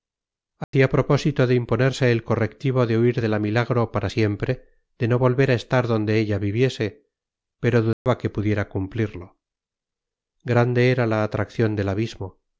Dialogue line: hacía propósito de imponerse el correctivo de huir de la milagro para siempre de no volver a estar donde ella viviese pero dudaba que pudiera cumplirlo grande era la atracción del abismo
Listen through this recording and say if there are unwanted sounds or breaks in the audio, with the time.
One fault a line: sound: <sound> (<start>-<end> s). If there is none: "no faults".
sound: dropout (0.6-0.7 s)
sound: dropout (7.9-8.1 s)